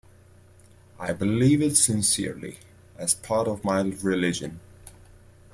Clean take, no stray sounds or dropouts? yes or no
yes